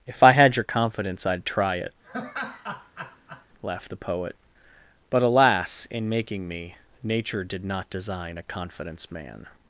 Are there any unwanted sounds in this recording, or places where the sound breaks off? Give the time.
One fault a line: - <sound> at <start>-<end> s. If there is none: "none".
- laugh at 2.0-3.5 s